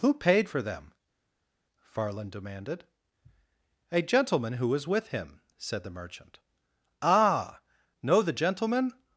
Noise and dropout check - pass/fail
pass